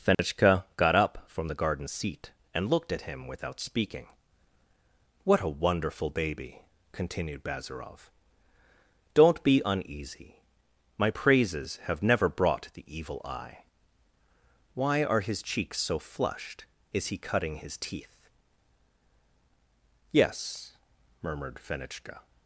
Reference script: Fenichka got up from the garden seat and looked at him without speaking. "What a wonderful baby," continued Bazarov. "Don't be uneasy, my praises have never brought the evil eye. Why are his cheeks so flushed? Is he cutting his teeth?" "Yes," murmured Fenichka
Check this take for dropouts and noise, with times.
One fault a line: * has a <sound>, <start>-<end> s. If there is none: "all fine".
* has a dropout, 0.1-0.2 s